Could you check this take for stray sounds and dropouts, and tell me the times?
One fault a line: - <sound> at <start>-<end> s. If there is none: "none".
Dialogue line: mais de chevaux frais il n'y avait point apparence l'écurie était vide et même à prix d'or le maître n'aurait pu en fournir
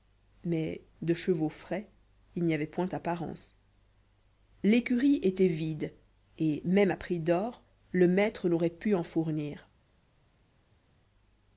none